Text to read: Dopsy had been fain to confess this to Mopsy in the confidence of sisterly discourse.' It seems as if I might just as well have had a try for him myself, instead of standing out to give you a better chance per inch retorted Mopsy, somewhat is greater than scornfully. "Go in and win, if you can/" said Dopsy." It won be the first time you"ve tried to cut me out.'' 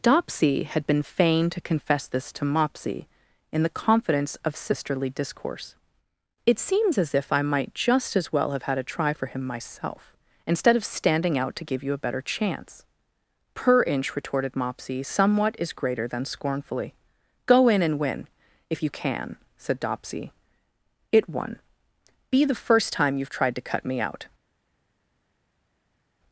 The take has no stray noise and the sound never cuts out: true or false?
true